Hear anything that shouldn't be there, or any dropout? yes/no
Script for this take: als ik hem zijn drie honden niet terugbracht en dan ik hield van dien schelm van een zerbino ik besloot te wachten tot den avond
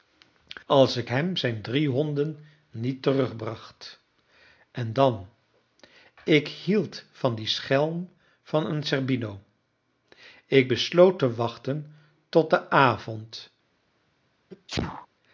yes